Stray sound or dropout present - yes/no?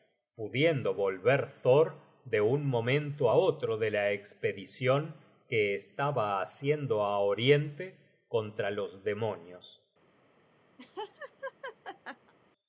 yes